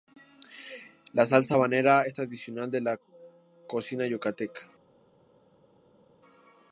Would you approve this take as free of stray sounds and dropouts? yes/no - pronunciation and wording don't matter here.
yes